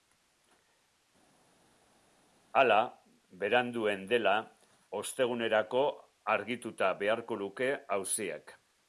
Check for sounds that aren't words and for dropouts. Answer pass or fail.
pass